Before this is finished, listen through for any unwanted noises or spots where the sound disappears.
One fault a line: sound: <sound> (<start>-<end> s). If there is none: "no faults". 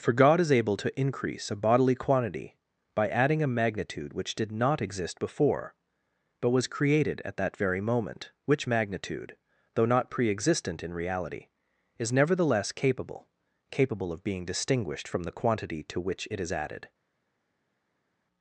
no faults